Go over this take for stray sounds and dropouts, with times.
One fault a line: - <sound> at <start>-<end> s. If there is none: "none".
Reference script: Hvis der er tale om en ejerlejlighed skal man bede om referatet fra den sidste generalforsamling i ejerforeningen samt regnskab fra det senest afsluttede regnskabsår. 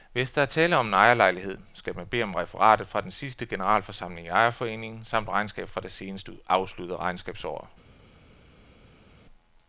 none